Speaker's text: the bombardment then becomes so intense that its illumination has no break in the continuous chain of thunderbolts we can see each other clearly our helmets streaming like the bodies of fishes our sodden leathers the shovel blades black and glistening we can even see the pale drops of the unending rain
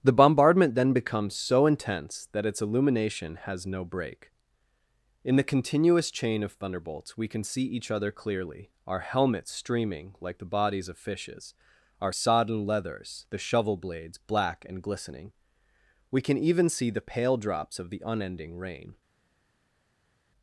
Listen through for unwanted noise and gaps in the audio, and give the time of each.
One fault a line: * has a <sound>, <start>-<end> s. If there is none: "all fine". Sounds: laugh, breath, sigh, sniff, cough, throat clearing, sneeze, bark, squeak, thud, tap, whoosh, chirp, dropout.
all fine